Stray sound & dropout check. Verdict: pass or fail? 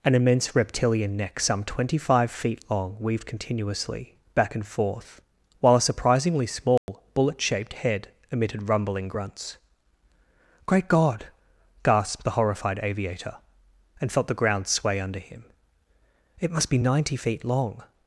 fail